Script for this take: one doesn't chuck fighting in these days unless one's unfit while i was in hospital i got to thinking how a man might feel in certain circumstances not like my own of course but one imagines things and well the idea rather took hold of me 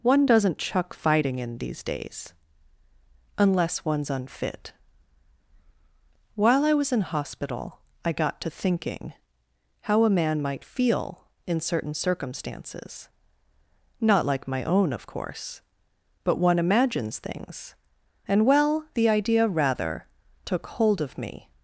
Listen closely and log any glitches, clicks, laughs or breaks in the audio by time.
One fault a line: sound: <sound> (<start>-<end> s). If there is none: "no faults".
no faults